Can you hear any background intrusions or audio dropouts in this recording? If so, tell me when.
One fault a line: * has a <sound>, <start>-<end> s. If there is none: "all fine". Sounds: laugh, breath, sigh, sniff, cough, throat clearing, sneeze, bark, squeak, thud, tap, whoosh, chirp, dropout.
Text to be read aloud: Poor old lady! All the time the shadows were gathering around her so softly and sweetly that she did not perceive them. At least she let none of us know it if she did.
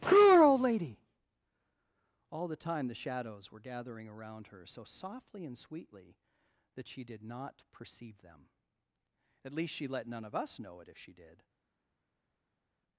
all fine